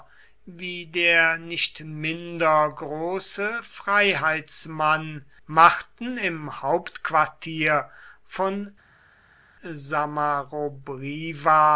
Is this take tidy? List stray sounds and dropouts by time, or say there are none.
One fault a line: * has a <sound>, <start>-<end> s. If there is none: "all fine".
all fine